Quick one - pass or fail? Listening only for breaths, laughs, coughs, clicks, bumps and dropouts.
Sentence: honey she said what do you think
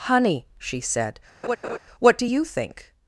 fail